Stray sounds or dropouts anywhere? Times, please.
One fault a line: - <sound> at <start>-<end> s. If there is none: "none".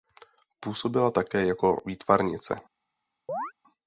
- chirp at 3.3-3.5 s